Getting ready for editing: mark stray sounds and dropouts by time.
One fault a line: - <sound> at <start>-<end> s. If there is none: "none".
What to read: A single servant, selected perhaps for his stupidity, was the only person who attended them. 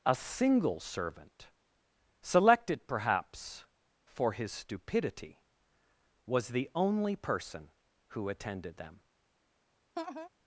- laugh at 10.0-10.3 s